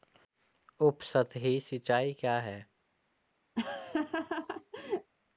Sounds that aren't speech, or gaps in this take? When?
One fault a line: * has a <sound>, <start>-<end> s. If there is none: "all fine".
* has a laugh, 3.6-5.1 s